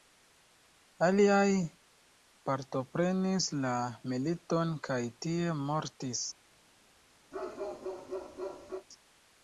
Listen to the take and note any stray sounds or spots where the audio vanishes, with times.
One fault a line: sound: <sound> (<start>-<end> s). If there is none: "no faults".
sound: bark (7.3-8.9 s)